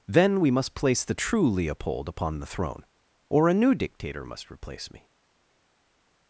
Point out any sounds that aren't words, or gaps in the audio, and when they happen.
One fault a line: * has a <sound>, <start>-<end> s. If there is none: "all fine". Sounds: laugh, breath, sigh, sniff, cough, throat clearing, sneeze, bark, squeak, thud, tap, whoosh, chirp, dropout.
all fine